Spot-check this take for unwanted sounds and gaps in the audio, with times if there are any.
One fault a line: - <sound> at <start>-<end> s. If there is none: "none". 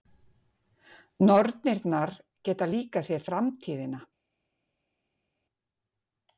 none